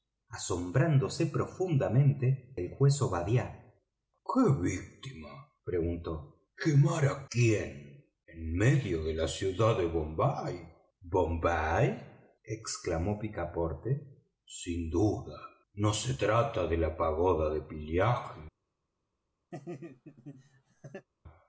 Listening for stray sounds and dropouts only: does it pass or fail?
fail